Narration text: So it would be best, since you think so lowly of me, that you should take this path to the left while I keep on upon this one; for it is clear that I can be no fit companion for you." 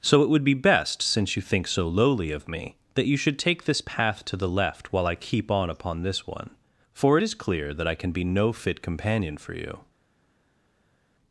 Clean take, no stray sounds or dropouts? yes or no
yes